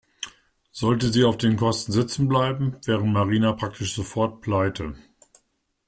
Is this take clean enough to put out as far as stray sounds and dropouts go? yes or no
yes